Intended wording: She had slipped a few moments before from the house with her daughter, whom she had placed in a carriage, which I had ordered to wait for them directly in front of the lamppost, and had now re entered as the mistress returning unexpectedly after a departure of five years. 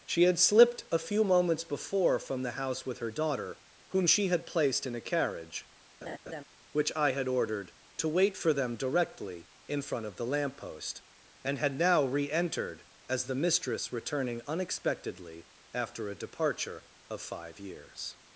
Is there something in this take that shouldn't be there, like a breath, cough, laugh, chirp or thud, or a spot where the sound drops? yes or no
yes